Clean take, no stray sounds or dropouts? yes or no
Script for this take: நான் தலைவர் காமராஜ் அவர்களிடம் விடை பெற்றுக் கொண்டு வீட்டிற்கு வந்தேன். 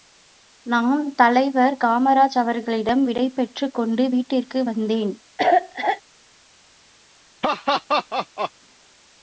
no